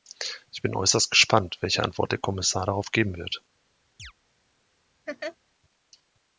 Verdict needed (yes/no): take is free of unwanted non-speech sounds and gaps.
no